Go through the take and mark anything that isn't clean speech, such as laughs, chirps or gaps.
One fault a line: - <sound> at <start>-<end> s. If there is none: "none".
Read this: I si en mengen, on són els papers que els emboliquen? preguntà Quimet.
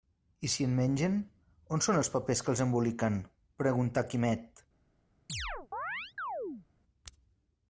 - chirp at 5.3-6.7 s